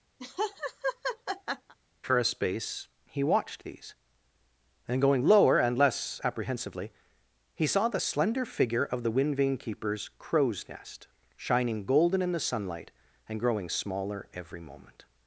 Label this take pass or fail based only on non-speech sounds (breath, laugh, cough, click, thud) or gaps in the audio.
fail